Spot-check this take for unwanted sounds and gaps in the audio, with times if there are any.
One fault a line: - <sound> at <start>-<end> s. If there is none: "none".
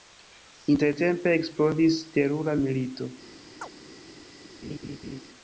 - chirp at 3.6-3.7 s
- laugh at 4.6-5.2 s